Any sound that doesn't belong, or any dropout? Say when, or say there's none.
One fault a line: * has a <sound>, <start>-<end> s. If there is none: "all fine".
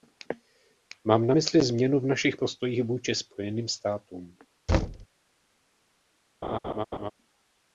* has a thud, 4.7-5.1 s
* has a laugh, 6.4-7.1 s